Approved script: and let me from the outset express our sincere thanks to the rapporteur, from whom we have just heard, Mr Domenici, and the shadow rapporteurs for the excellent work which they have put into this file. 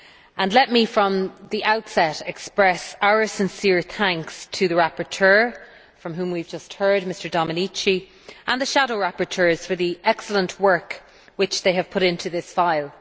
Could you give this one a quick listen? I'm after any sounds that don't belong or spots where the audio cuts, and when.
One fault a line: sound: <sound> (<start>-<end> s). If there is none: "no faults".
no faults